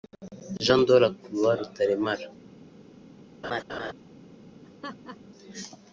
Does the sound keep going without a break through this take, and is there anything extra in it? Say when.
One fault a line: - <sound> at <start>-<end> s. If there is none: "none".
- laugh at 3.4-3.9 s
- laugh at 4.6-5.2 s